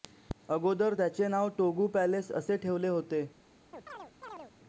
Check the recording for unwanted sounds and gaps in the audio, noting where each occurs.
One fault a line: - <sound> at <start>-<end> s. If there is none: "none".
- chirp at 3.7-4.5 s